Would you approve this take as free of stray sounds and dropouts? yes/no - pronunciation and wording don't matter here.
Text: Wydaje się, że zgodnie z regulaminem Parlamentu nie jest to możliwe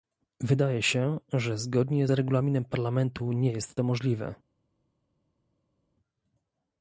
yes